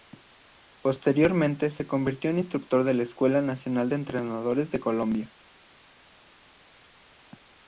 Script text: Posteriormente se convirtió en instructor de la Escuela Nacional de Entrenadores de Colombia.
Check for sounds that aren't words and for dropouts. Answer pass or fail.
pass